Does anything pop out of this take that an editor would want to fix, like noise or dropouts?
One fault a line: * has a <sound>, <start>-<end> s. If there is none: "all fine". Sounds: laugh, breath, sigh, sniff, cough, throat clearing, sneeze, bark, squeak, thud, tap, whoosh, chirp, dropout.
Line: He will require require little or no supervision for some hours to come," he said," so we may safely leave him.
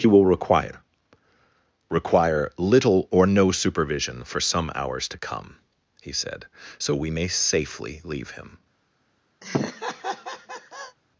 * has a laugh, 9.4-11.0 s